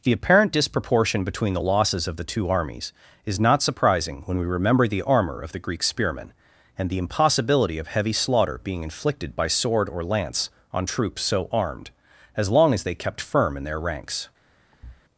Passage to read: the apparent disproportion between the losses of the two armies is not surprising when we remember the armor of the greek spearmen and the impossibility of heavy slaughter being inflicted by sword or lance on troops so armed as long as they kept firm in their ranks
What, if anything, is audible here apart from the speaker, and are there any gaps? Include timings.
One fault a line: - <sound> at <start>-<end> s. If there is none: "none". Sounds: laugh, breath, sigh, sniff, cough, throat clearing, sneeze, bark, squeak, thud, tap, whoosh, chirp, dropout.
- thud at 14.7-15.0 s